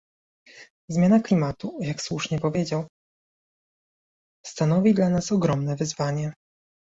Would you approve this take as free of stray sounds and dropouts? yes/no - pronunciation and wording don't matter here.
yes